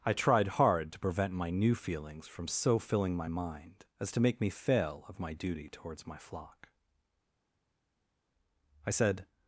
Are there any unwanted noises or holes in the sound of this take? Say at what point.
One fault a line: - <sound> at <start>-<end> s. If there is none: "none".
none